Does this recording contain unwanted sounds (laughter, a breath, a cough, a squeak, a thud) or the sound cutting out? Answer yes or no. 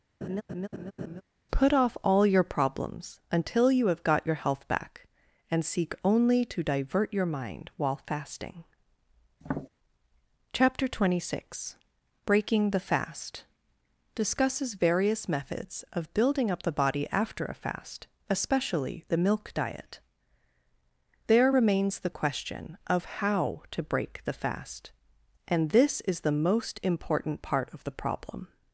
yes